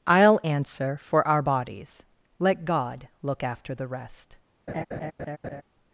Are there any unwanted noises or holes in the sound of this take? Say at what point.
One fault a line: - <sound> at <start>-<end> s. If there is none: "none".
- laugh at 4.7-5.6 s